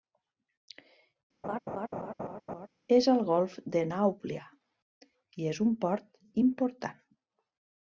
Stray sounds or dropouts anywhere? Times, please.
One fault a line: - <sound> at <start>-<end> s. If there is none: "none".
- laugh at 1.4-2.7 s